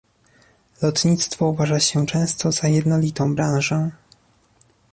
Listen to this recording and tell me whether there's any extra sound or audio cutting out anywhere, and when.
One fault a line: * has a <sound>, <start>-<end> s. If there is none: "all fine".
all fine